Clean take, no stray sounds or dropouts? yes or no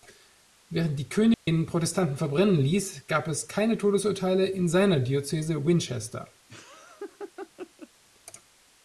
no